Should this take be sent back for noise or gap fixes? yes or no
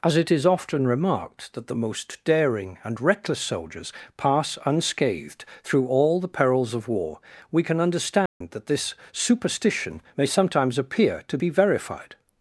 yes